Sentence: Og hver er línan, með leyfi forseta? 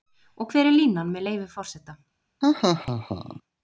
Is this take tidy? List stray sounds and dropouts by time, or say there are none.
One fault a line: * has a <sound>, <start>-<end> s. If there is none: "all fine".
* has a laugh, 2.4-3.4 s